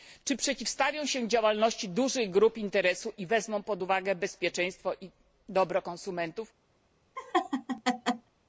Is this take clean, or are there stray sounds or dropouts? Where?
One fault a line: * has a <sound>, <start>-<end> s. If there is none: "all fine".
* has a laugh, 7.2-8.3 s